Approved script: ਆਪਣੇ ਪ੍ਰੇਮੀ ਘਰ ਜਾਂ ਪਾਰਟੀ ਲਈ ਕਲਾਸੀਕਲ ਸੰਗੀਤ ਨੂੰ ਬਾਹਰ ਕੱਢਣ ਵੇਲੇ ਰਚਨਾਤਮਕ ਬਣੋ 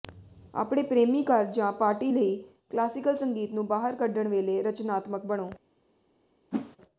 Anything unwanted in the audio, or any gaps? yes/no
yes